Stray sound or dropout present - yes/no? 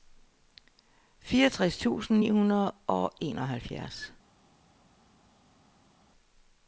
no